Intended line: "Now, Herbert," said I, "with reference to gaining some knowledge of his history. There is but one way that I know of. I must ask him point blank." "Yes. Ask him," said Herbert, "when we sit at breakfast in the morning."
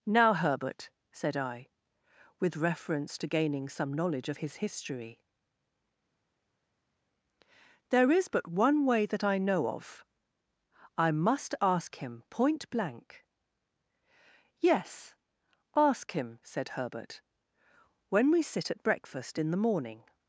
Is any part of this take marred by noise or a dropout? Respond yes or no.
no